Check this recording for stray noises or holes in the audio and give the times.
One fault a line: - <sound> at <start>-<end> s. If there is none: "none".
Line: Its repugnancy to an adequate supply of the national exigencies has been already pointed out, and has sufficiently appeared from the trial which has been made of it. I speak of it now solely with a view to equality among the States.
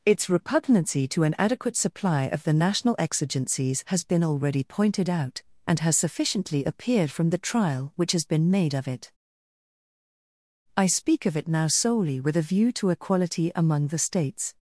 none